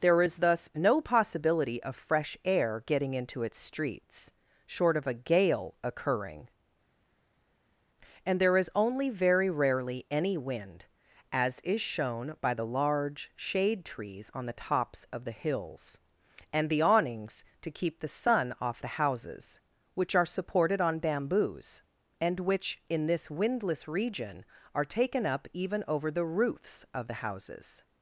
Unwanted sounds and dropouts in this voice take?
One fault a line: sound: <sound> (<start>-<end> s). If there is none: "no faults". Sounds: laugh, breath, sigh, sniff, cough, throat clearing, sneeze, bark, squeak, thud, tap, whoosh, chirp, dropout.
no faults